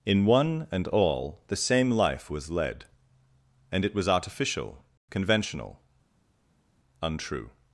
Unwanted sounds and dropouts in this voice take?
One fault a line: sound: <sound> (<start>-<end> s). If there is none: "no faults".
no faults